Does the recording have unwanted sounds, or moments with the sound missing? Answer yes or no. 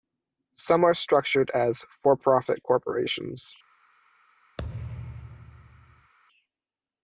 yes